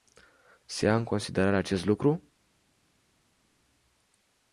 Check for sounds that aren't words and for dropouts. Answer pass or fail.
pass